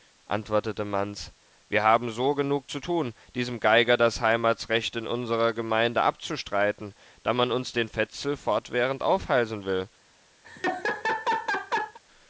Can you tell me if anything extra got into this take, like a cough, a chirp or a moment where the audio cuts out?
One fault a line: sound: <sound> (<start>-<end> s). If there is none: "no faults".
sound: laugh (10.4-12.0 s)